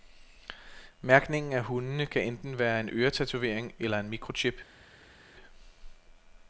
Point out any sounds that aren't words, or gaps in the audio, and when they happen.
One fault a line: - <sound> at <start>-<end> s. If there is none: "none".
none